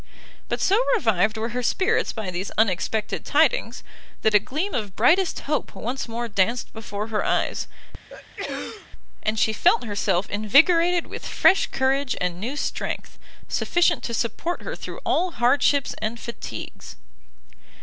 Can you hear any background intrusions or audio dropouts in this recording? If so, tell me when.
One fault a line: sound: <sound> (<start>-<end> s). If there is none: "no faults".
sound: sneeze (8.1-8.9 s)